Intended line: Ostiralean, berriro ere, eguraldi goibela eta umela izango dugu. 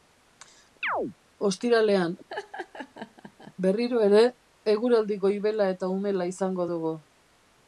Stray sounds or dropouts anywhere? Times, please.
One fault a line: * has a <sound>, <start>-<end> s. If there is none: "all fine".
* has a chirp, 0.8-1.2 s
* has a laugh, 2.3-3.5 s